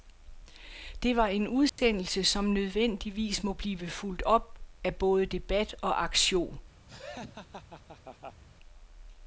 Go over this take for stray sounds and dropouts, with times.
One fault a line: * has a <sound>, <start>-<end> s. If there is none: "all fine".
* has a dropout, 1.7-1.8 s
* has a laugh, 6.9-8.4 s